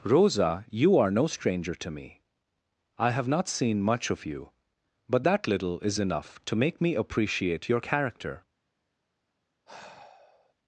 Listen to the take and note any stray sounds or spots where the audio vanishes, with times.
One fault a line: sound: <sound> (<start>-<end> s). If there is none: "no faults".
sound: sigh (9.7-10.5 s)